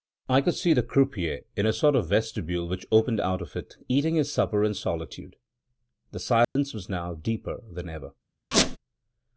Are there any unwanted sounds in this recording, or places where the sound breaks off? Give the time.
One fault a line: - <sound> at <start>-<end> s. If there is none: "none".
- dropout at 6.4-6.6 s
- squeak at 8.5-8.8 s